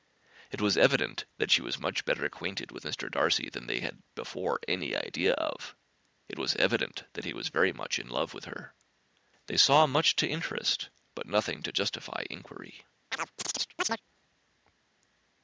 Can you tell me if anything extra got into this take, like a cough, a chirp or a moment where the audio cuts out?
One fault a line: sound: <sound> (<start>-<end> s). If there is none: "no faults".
sound: chirp (13.1-14.0 s)